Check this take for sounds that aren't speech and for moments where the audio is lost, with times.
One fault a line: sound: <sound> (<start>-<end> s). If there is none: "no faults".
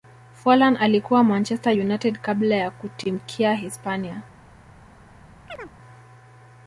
sound: chirp (5.5-5.7 s)